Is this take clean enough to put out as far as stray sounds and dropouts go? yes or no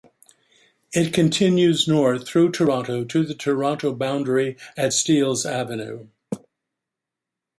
yes